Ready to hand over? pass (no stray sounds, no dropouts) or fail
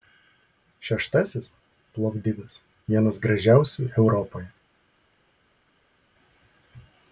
pass